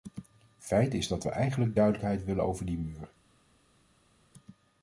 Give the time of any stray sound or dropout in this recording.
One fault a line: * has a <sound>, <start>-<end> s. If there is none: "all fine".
all fine